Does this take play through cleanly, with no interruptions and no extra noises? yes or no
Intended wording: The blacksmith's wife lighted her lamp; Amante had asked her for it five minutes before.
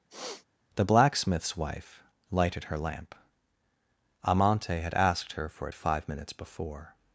no